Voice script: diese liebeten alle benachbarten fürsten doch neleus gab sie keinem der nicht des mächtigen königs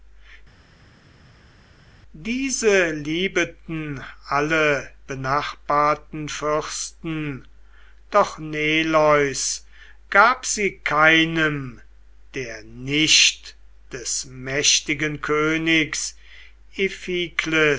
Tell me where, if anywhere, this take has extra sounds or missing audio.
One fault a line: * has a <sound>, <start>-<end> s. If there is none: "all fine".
all fine